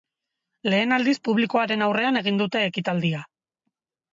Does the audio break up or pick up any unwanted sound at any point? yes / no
no